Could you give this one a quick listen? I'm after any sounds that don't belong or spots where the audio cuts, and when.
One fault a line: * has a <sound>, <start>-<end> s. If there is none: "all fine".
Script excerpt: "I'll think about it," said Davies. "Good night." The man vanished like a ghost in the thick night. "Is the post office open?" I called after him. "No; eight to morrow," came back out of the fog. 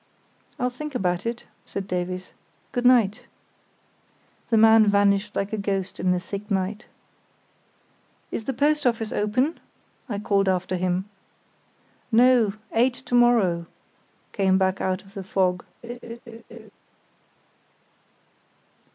* has a laugh, 15.8-16.7 s